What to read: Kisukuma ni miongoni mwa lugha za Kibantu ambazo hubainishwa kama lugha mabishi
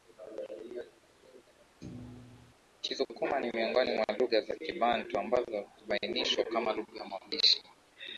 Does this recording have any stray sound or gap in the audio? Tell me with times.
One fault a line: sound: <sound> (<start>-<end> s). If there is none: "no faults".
sound: thud (1.8-2.5 s)